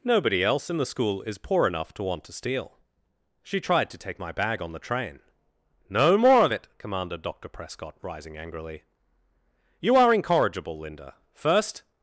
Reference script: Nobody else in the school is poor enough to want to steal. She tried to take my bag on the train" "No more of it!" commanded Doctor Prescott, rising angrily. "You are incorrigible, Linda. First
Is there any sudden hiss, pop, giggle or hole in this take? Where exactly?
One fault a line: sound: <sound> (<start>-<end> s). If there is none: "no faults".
no faults